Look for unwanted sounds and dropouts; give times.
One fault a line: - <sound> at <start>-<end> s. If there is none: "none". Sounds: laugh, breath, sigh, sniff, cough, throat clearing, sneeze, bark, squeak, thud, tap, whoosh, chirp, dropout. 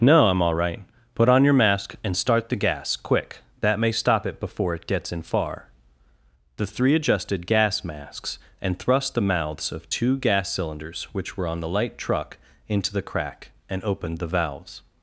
none